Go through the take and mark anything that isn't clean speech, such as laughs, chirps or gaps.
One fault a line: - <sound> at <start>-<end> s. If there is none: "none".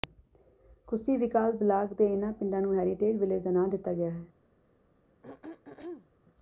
- throat clearing at 5.2-6.1 s